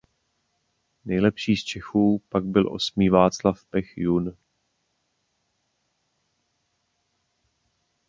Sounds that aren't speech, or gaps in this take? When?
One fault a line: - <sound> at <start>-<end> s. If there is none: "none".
none